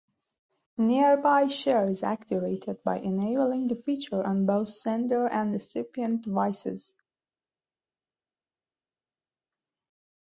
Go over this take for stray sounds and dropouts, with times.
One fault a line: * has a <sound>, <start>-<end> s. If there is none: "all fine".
all fine